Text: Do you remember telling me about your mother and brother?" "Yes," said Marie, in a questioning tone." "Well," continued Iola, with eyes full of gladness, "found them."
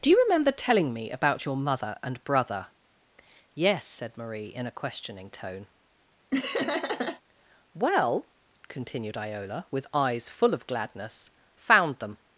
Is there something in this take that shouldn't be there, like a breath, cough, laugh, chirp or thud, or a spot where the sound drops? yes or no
yes